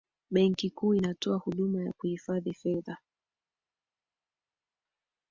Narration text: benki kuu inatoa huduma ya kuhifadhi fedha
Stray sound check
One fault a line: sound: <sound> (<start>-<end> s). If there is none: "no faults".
no faults